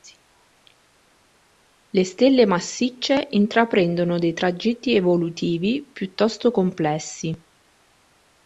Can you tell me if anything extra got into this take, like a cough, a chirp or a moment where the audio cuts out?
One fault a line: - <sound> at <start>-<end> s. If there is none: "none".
none